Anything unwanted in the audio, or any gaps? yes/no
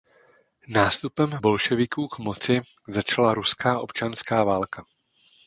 no